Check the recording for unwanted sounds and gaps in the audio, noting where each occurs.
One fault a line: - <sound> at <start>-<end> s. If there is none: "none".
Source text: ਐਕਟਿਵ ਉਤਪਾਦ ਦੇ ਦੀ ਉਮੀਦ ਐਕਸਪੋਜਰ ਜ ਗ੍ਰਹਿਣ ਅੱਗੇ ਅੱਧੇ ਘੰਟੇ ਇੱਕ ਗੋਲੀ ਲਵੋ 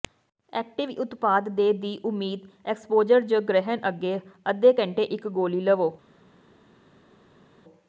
none